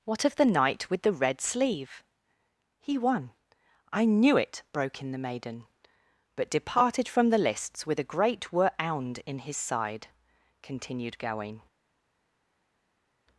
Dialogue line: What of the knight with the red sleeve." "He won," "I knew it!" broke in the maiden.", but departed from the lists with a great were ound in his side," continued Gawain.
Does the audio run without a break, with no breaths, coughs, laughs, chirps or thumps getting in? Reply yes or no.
yes